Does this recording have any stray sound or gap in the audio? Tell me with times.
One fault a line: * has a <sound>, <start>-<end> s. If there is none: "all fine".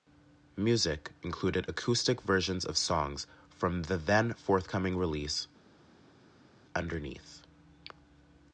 all fine